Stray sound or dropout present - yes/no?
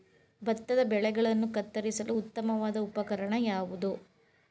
no